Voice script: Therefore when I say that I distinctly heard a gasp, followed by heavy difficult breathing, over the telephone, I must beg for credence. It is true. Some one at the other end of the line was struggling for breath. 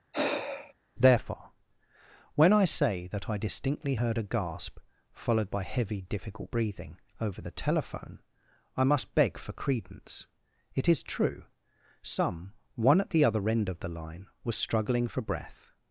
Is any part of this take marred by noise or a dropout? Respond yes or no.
yes